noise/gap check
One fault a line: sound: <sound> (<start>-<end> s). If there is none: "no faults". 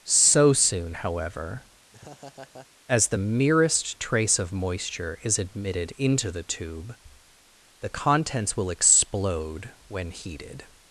sound: laugh (1.9-2.7 s)